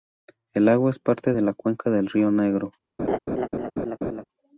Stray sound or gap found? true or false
true